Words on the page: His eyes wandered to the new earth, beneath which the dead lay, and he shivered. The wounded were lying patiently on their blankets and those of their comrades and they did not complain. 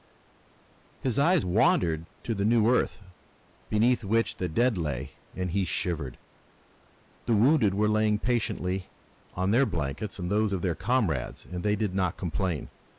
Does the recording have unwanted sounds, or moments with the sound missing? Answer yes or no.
no